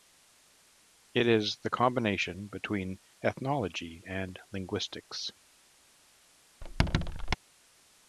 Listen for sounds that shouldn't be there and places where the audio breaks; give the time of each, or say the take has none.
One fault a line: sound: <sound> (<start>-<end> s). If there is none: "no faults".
sound: squeak (6.6-7.4 s)